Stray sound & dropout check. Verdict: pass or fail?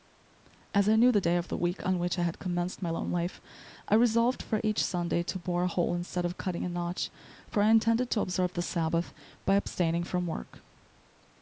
pass